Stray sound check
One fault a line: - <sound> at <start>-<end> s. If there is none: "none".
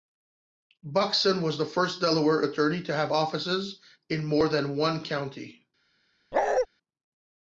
- bark at 6.3-6.7 s